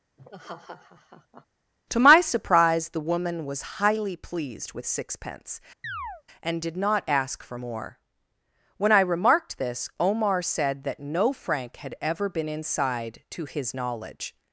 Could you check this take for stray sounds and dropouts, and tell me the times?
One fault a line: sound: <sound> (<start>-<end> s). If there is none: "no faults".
sound: laugh (0.2-1.5 s)
sound: chirp (5.8-6.2 s)